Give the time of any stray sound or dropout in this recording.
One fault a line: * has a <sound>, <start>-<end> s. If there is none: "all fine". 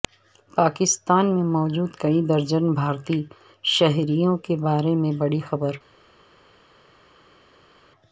all fine